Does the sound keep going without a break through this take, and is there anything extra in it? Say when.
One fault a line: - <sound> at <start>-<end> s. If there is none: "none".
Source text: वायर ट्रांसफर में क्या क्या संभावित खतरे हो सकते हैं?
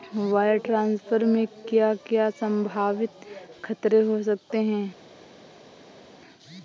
none